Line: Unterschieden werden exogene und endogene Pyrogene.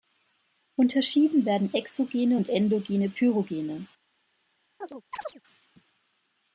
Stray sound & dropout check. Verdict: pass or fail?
fail